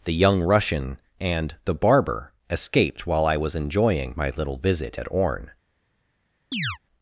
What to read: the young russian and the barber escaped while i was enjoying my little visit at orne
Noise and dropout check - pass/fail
fail